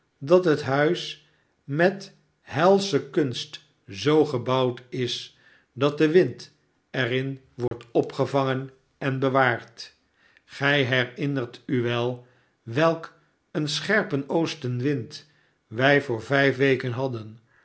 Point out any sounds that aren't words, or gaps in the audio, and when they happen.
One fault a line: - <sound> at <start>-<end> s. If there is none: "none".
- dropout at 7.7-7.7 s